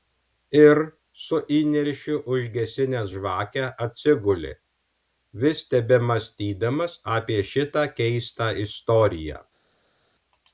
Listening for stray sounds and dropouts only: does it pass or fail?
pass